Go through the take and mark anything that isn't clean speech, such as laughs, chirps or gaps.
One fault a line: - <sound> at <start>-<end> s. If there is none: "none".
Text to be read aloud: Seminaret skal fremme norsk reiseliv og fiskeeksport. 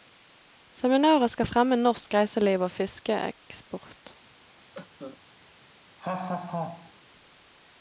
- cough at 4.7-5.2 s
- laugh at 6.0-6.9 s